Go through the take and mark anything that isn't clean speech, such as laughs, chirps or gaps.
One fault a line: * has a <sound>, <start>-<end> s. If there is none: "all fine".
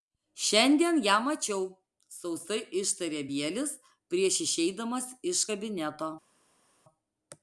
all fine